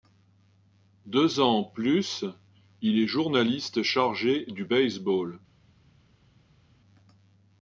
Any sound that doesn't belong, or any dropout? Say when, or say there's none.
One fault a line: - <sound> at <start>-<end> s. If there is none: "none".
none